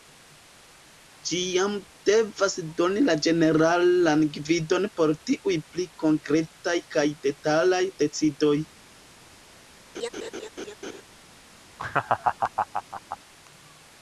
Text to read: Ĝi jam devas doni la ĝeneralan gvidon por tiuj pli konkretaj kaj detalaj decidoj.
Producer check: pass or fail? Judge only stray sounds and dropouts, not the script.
fail